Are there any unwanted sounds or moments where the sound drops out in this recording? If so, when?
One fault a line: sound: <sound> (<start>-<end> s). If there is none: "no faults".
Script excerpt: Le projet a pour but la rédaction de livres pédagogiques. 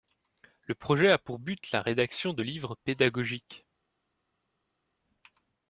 no faults